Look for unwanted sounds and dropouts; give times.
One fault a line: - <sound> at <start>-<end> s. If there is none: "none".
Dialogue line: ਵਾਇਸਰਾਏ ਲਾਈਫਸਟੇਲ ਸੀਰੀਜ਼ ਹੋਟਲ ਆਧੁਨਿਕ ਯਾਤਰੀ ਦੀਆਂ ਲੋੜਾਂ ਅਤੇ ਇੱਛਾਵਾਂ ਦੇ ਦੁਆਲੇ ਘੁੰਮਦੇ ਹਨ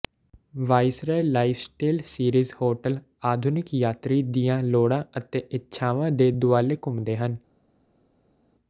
none